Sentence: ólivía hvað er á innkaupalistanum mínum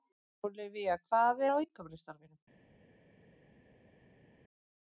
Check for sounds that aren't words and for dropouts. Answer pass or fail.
pass